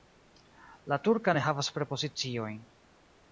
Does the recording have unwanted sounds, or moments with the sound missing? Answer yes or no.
no